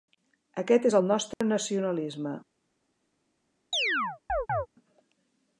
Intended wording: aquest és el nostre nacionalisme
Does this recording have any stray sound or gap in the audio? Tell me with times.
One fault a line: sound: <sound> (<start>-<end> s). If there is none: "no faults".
sound: dropout (1.3-1.4 s)
sound: chirp (3.7-4.7 s)